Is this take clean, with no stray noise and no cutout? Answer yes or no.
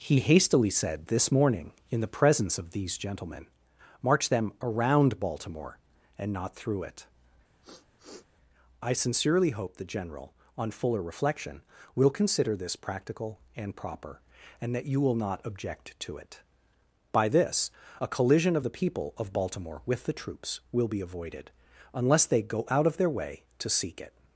no